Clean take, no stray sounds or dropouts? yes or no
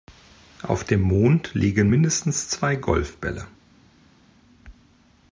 yes